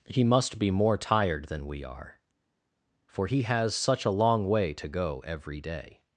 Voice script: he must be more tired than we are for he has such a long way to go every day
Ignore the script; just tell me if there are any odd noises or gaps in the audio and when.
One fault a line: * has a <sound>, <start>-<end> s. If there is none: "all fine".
all fine